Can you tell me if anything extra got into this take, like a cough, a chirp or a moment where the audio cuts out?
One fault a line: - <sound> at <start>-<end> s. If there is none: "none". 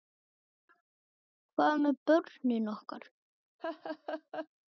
- laugh at 3.6-4.5 s